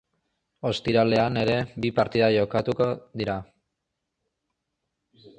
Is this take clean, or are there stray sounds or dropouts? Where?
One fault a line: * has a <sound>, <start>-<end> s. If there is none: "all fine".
all fine